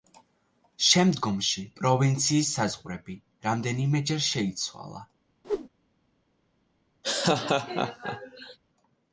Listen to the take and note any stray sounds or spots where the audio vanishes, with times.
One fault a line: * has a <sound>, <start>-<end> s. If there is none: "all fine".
* has a whoosh, 5.4-5.7 s
* has a laugh, 7.0-8.6 s